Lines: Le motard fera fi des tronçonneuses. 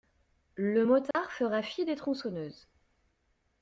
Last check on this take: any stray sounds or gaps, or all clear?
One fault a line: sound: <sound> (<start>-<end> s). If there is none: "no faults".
sound: dropout (1.1-1.1 s)